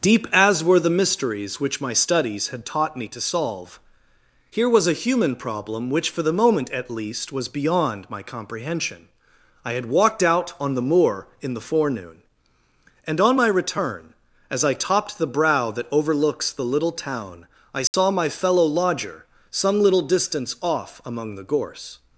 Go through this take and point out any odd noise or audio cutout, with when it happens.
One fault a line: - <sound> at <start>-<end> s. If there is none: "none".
- dropout at 17.9-17.9 s